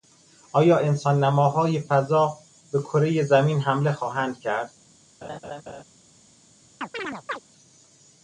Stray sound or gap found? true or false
true